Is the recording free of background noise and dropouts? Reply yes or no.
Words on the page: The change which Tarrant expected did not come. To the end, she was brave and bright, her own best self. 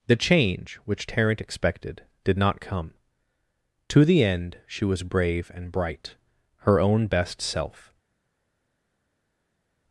yes